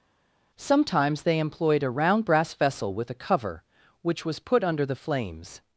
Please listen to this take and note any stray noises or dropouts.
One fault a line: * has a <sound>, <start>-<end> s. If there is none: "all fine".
all fine